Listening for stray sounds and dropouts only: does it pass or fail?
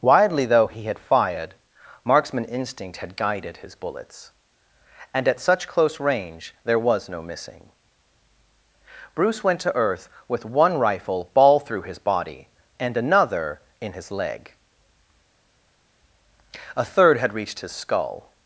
pass